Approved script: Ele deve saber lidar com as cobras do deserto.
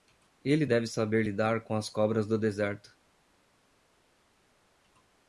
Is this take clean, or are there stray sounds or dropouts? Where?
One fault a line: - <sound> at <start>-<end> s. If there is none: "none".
none